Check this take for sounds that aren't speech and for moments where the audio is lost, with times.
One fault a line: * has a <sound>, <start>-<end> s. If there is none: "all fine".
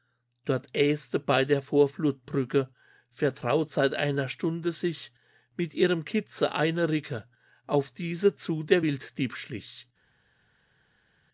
all fine